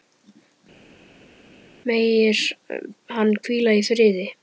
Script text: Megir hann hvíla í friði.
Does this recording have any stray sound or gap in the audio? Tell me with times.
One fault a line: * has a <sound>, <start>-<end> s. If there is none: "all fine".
all fine